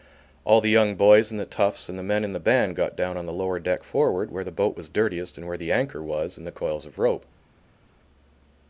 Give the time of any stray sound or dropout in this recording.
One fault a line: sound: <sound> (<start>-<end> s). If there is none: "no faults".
no faults